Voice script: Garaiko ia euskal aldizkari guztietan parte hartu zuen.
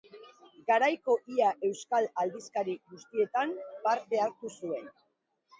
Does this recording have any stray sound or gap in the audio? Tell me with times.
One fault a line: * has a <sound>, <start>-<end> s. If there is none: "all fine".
all fine